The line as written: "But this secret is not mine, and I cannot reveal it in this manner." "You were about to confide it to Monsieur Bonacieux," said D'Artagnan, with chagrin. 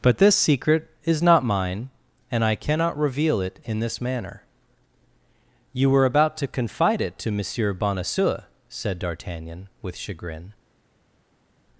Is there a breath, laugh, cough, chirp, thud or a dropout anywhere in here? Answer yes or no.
no